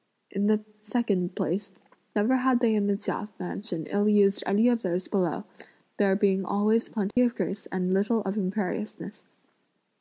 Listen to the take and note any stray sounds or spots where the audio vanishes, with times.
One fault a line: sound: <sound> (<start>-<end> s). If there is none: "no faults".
sound: dropout (7.1-7.2 s)